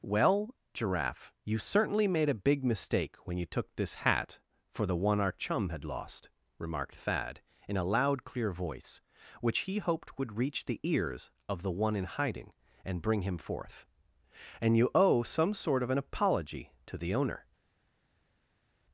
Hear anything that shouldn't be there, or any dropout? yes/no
no